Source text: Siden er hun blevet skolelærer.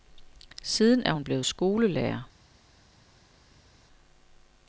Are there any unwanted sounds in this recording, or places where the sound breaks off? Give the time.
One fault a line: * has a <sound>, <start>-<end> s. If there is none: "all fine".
all fine